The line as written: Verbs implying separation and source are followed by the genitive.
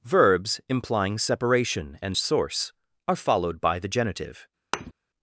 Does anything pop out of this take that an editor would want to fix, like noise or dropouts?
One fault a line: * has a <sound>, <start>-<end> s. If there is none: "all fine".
* has a thud, 4.7-4.9 s